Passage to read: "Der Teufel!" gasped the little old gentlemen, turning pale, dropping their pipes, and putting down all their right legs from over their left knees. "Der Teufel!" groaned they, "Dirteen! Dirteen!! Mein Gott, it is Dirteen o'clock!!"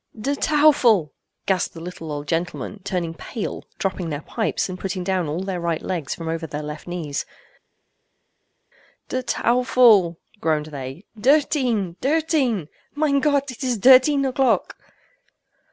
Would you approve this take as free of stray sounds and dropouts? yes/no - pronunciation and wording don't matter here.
yes